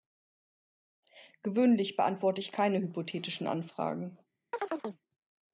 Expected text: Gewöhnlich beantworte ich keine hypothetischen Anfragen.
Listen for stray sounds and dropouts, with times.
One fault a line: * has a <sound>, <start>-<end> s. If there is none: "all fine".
* has a chirp, 4.5-5.0 s